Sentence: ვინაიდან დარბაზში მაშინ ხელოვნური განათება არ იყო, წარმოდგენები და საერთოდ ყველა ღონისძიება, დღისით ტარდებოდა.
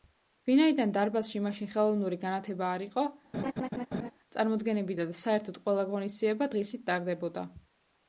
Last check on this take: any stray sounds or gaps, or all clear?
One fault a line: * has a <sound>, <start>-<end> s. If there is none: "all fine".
* has a laugh, 3.3-4.1 s